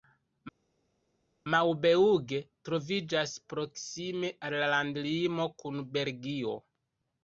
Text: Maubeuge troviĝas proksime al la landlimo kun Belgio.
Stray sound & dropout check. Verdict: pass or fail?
pass